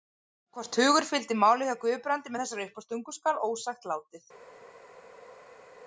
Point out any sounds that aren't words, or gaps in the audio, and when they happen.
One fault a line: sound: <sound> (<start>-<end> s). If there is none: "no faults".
no faults